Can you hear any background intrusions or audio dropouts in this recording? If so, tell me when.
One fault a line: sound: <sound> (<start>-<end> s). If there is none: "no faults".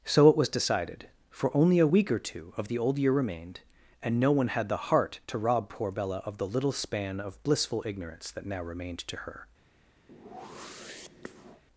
sound: whoosh (10.1-11.6 s)